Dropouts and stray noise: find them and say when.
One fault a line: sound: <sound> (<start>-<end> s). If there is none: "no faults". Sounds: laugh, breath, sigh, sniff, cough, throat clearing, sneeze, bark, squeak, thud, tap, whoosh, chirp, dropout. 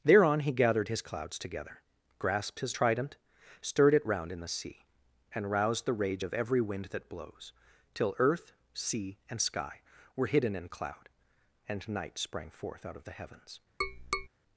sound: tap (13.8-14.3 s)